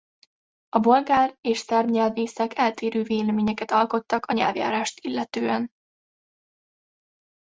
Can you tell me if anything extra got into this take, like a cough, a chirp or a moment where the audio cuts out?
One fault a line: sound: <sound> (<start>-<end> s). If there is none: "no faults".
no faults